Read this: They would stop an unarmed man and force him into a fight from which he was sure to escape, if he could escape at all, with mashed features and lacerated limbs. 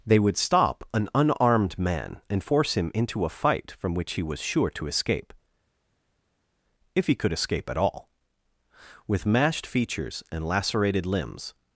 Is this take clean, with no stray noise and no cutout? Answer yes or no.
yes